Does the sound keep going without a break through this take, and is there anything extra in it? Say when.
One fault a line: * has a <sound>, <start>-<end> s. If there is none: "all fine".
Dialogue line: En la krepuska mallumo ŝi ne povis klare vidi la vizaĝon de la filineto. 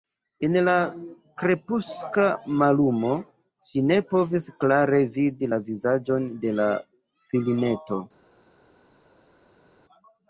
all fine